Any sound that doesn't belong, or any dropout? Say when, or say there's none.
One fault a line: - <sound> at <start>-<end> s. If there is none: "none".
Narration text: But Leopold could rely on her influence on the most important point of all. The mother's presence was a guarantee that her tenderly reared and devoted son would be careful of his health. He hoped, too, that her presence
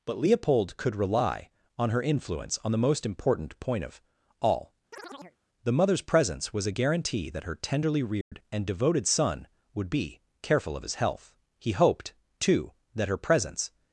- chirp at 4.9-5.4 s
- dropout at 8.2-8.3 s